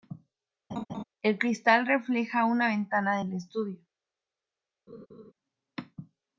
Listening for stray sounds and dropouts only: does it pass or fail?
fail